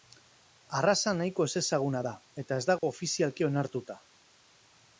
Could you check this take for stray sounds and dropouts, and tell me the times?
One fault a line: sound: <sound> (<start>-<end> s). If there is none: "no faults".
sound: dropout (2.8-2.8 s)